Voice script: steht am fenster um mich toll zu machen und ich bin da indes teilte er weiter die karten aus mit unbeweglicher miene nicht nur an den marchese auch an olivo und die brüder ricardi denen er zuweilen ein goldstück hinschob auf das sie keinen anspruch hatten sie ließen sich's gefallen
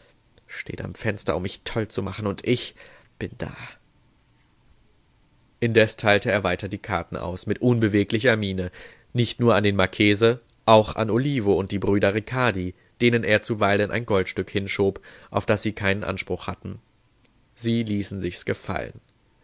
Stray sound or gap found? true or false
false